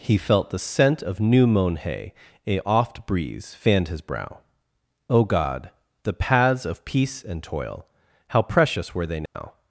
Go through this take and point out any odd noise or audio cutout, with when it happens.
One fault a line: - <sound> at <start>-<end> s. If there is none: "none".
- dropout at 9.3-9.3 s